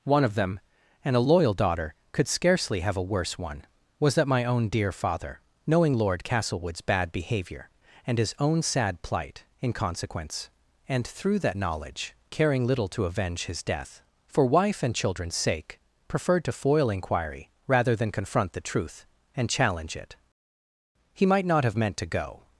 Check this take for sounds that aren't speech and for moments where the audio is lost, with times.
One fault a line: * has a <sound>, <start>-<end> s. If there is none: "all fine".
all fine